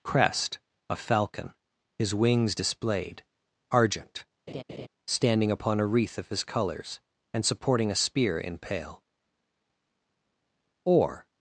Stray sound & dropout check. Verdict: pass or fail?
fail